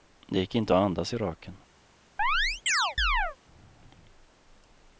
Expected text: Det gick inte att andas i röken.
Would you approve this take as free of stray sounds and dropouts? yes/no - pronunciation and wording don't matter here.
no